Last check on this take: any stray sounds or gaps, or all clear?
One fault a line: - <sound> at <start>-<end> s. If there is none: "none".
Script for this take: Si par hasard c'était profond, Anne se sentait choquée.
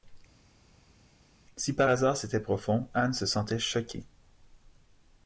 none